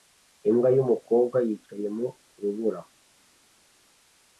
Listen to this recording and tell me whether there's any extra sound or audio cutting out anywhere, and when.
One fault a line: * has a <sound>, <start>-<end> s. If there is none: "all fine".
all fine